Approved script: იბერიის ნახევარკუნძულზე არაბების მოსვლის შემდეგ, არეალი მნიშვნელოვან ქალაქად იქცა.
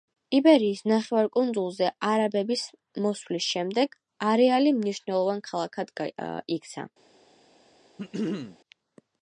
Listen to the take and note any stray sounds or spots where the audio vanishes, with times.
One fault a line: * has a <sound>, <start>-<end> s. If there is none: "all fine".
* has a throat clearing, 8.0-8.6 s